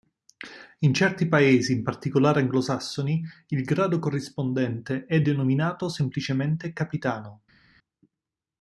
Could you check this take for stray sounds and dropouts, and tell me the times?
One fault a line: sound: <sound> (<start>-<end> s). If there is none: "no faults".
no faults